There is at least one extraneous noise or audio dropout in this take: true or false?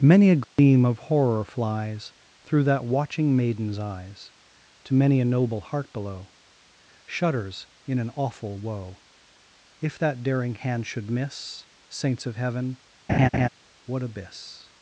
true